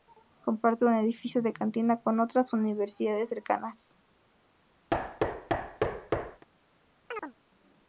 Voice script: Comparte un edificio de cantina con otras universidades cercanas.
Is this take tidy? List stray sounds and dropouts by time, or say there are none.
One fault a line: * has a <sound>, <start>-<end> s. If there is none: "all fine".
* has a thud, 4.9-6.4 s
* has a chirp, 7.1-7.3 s